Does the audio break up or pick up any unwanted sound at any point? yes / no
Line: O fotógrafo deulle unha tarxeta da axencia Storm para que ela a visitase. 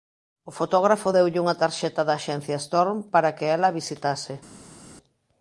no